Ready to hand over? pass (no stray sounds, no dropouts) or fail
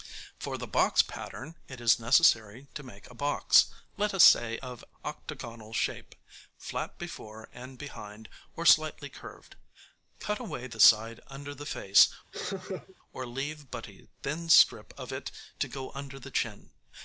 fail